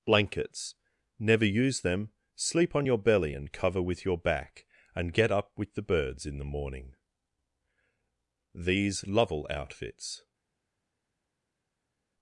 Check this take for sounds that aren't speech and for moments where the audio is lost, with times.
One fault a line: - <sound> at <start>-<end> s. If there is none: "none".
none